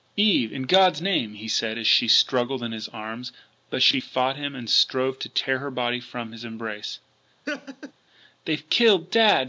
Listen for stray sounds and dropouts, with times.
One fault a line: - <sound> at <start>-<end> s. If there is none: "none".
- laugh at 7.5-7.9 s